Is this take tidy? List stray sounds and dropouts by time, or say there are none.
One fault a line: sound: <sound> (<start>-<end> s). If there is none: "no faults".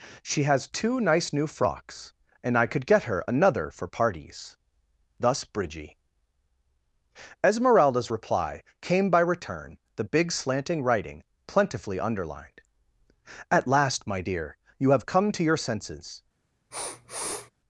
sound: sniff (16.7-17.5 s)